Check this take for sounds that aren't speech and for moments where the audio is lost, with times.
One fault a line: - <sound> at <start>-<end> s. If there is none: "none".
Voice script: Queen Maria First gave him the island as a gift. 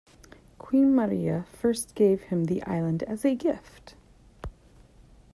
none